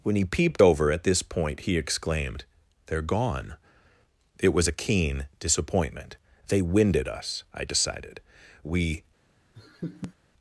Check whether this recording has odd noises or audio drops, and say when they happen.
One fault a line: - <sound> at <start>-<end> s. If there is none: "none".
- laugh at 9.5-10.1 s